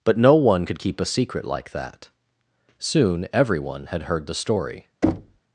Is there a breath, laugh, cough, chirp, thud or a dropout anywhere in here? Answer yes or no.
yes